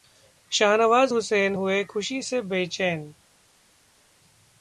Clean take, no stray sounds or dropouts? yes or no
yes